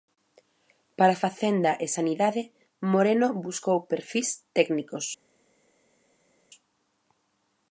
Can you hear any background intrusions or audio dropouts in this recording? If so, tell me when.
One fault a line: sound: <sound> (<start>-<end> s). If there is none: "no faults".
no faults